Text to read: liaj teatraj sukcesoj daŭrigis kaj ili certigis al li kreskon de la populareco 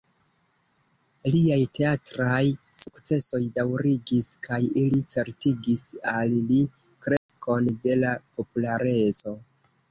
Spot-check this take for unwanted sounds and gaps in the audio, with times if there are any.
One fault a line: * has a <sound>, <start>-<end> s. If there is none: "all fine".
* has a dropout, 7.2-7.3 s